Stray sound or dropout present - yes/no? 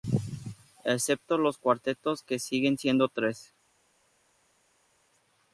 no